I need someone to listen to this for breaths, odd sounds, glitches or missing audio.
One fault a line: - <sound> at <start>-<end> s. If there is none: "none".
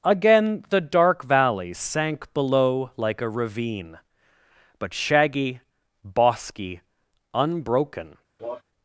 - cough at 8.4-8.6 s